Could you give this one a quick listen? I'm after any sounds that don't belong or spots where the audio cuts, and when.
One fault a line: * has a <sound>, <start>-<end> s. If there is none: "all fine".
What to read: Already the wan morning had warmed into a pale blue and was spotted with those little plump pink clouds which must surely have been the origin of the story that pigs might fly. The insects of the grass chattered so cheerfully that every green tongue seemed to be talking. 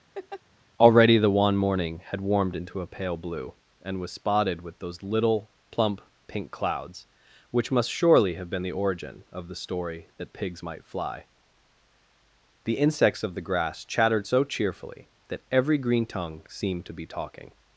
* has a laugh, 0.1-0.4 s